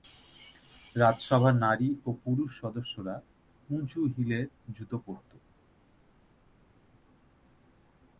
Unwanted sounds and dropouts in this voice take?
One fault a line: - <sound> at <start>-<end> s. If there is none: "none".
none